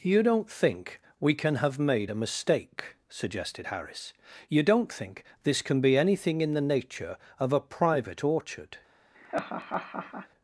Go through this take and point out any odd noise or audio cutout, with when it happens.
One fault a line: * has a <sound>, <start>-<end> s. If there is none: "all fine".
* has a laugh, 9.1-10.3 s